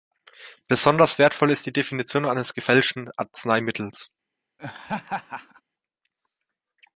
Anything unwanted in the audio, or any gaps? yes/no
yes